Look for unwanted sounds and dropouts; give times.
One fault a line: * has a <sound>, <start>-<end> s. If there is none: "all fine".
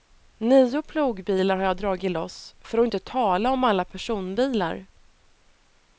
all fine